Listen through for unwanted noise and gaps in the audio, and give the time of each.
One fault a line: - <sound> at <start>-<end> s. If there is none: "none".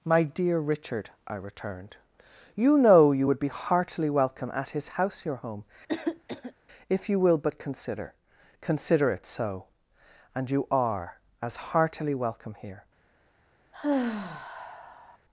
- cough at 5.9-6.5 s
- sigh at 13.7-15.2 s